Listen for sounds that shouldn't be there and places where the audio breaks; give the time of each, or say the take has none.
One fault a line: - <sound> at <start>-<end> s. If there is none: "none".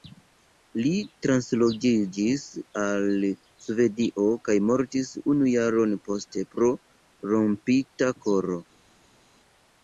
none